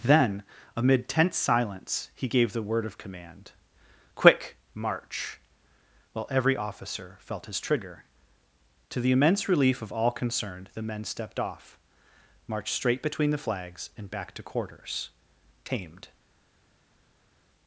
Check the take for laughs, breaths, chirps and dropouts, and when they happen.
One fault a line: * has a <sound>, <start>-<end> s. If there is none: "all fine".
all fine